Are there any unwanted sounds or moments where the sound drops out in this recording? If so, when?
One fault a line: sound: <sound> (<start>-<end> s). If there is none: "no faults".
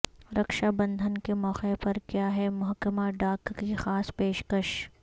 no faults